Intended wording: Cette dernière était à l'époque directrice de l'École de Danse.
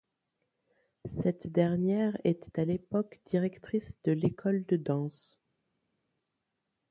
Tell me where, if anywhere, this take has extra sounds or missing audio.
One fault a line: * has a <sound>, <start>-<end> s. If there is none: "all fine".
all fine